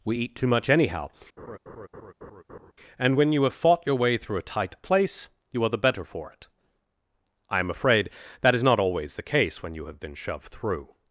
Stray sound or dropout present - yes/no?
yes